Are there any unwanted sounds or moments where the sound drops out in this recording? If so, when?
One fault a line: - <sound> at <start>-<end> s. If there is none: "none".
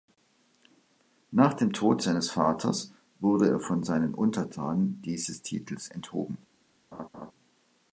- laugh at 6.9-7.3 s